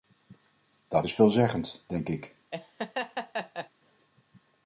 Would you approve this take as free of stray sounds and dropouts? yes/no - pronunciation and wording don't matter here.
no